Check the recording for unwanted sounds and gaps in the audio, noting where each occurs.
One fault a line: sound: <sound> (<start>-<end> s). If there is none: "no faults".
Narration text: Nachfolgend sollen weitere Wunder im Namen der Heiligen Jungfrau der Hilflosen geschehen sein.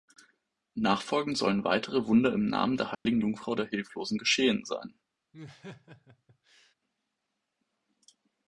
sound: dropout (2.9-3.1 s)
sound: laugh (5.3-6.7 s)